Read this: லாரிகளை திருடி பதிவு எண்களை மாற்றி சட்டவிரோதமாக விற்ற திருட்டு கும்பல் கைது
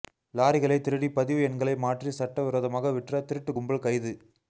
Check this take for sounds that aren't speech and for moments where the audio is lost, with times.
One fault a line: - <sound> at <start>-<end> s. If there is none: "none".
none